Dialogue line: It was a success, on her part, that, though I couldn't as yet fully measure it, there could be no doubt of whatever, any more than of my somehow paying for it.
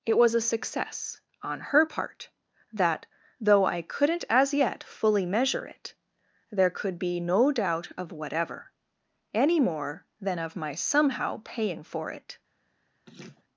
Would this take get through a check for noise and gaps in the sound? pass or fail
fail